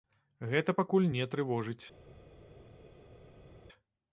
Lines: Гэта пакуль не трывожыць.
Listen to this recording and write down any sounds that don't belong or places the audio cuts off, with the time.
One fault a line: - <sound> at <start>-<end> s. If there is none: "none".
none